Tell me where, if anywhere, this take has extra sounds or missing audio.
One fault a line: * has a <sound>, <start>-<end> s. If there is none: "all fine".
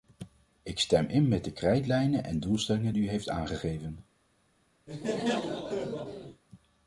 * has a laugh, 4.9-6.4 s